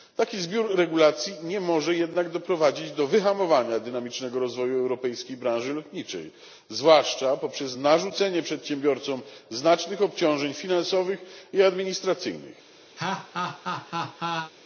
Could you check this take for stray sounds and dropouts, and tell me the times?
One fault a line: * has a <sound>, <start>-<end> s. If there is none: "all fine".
* has a laugh, 13.0-14.5 s